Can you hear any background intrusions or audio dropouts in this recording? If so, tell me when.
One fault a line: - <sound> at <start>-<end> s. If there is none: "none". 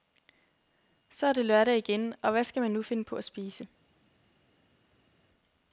none